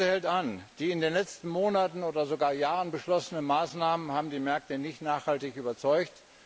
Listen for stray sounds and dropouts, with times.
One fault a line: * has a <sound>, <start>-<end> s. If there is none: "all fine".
all fine